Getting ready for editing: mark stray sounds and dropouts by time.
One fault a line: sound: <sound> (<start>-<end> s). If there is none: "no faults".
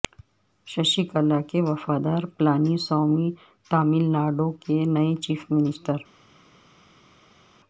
no faults